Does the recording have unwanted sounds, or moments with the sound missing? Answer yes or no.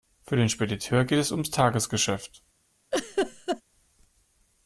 yes